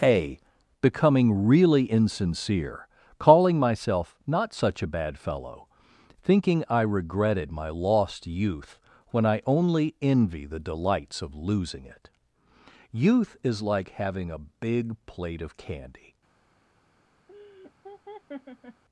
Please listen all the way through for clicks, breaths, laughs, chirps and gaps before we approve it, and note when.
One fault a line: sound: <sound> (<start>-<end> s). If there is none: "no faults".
sound: laugh (17.3-18.8 s)